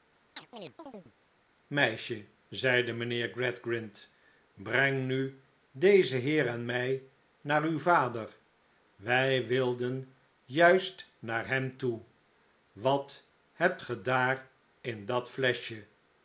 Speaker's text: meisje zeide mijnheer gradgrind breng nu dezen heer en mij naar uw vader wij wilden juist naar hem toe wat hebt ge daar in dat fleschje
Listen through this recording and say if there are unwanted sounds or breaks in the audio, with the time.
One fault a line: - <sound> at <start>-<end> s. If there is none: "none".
- chirp at 0.4-1.1 s